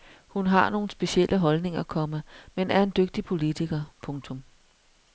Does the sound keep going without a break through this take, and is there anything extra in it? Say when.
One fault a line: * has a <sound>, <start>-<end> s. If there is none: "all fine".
all fine